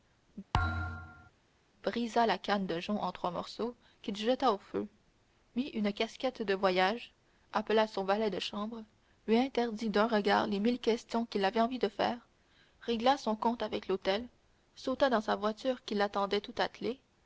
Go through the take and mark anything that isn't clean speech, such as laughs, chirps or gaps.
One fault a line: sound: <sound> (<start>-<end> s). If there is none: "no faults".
sound: thud (0.5-1.3 s)